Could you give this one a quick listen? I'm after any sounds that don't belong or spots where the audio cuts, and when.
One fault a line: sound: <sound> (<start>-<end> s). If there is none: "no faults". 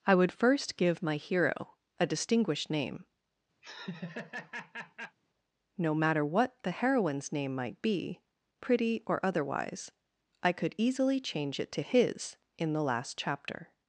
sound: laugh (3.6-5.2 s)